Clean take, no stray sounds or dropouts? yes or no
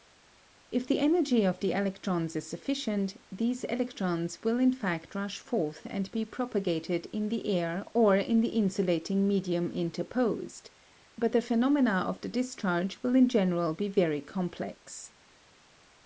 yes